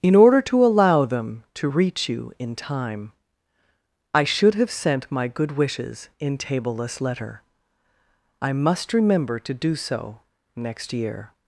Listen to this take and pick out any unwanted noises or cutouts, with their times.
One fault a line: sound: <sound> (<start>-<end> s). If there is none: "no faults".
no faults